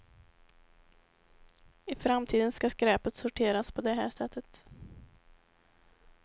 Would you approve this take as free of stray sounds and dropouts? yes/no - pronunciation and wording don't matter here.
yes